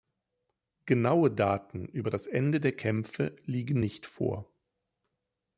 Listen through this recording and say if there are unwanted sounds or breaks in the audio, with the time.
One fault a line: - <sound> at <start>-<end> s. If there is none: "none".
none